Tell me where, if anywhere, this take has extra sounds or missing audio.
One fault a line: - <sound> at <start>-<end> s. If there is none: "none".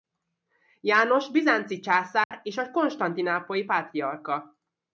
- dropout at 2.2-2.3 s